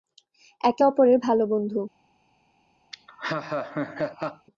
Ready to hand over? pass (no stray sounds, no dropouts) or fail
fail